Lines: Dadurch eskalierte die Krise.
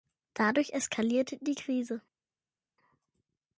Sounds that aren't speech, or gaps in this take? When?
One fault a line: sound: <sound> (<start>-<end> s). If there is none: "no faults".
no faults